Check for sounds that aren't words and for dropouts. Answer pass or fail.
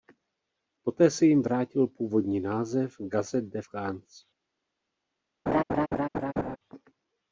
fail